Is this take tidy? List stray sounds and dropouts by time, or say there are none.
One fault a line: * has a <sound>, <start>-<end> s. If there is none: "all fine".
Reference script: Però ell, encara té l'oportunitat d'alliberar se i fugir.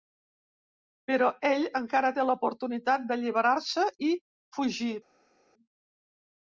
all fine